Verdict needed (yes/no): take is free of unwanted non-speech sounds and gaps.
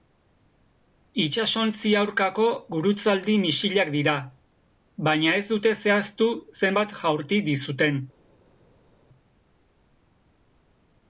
yes